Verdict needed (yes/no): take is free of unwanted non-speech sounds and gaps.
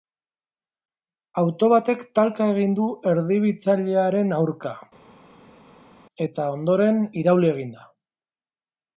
yes